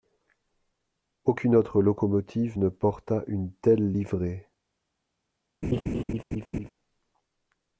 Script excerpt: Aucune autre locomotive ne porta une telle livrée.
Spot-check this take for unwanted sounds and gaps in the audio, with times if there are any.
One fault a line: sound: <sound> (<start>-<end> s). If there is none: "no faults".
sound: laugh (5.6-6.7 s)